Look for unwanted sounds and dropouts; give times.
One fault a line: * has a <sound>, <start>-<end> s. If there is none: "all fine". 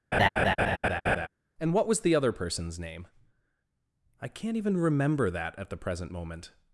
* has a laugh, 0.1-1.3 s